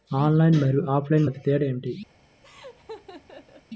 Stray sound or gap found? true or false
true